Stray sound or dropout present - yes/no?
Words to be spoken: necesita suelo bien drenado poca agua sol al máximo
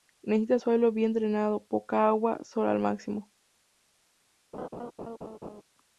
yes